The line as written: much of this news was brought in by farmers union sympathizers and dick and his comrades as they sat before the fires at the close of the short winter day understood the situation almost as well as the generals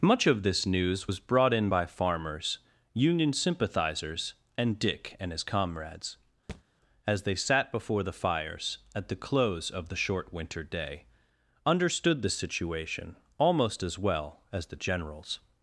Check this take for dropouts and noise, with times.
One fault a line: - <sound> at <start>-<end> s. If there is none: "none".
- thud at 6.5-6.6 s